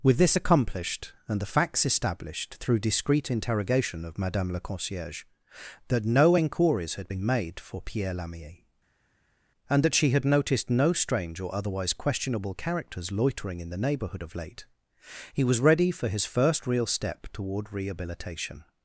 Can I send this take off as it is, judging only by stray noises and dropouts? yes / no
yes